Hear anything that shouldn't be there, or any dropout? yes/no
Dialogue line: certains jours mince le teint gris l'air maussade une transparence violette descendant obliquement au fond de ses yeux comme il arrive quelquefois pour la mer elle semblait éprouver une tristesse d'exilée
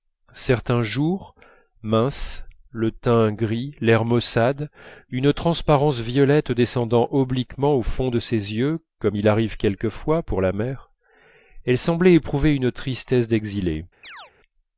yes